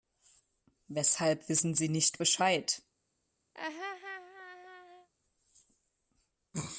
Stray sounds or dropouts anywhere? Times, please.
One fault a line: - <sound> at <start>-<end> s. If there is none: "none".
- laugh at 3.5-5.1 s